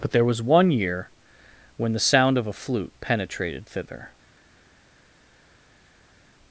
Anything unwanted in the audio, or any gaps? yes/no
no